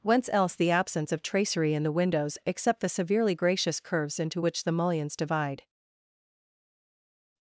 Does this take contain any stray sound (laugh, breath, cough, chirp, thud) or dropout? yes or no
no